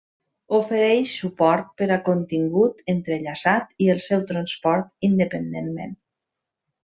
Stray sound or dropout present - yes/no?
no